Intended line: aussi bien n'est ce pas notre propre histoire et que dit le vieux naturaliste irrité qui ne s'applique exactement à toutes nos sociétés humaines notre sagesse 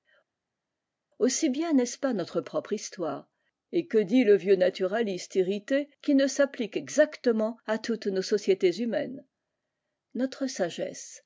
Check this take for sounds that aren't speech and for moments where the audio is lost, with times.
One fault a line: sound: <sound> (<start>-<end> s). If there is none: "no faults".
no faults